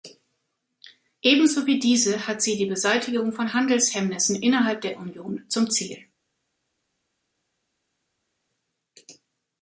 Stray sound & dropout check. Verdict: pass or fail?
pass